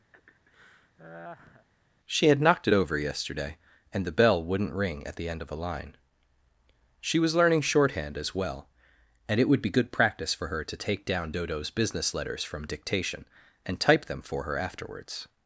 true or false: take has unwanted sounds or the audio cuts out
true